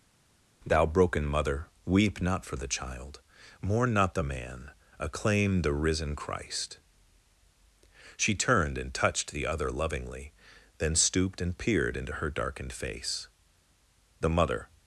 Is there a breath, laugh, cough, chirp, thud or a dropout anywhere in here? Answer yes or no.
no